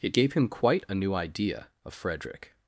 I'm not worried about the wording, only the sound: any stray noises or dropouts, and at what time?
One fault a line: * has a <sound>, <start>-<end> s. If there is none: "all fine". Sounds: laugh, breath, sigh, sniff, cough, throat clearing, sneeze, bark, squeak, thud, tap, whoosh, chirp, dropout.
all fine